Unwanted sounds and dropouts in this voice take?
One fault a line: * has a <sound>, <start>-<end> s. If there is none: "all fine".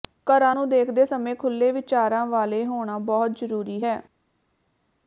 all fine